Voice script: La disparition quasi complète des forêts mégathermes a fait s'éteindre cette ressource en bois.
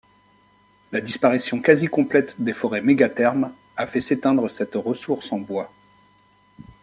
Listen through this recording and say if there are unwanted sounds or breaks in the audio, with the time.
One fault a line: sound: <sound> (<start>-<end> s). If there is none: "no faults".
no faults